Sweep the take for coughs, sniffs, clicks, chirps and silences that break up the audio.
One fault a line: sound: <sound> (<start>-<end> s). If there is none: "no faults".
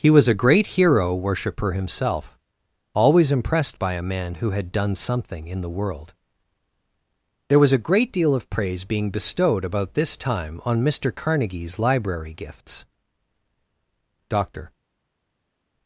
no faults